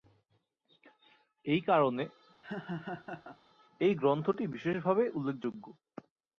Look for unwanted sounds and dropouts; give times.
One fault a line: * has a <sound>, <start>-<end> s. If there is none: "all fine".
* has a laugh, 2.4-3.4 s